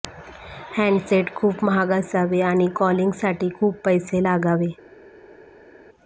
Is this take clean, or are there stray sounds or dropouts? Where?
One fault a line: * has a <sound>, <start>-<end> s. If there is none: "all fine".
all fine